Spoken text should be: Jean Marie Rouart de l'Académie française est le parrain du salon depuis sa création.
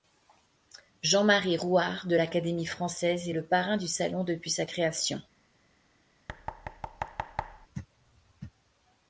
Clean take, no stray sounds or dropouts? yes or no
no